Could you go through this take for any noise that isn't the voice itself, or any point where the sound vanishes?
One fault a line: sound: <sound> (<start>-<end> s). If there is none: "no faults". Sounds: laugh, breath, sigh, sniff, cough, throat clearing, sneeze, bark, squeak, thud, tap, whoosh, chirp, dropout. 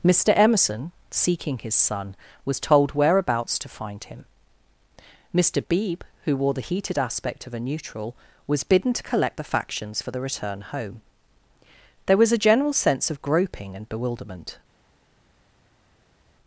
no faults